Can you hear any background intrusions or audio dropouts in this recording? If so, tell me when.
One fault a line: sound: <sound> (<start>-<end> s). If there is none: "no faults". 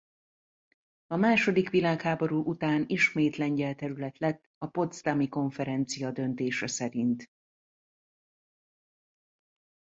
no faults